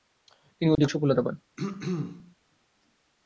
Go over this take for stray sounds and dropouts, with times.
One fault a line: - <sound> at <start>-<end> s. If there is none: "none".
- dropout at 0.7-0.8 s
- throat clearing at 1.6-2.3 s